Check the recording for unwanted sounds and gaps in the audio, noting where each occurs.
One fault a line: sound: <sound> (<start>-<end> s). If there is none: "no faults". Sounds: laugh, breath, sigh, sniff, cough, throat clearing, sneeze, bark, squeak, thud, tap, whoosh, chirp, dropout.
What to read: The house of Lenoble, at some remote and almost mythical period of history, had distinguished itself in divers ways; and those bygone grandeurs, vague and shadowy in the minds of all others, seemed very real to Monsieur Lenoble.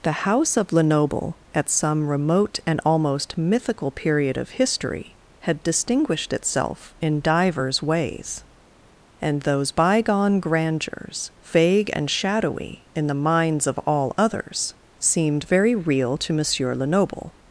no faults